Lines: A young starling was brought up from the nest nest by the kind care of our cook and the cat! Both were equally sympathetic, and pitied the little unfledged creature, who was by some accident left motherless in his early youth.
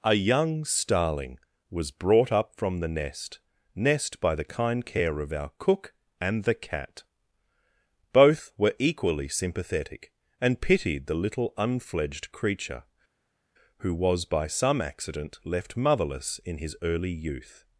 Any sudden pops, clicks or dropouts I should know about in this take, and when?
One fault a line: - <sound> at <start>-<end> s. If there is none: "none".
none